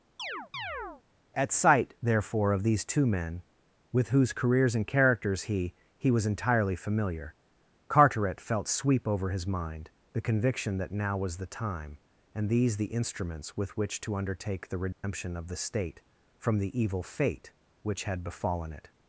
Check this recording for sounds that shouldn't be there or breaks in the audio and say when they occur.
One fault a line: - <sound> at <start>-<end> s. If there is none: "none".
- chirp at 0.2-1.0 s
- dropout at 14.9-15.0 s